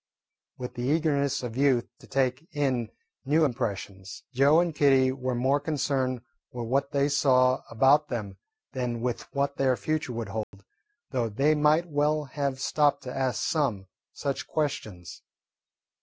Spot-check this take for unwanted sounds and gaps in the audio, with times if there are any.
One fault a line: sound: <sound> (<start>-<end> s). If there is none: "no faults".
sound: dropout (10.4-10.5 s)